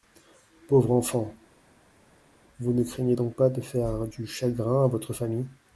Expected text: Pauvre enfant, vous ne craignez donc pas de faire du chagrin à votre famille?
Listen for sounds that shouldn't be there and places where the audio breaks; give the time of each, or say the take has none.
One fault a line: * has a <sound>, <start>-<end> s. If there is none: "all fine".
all fine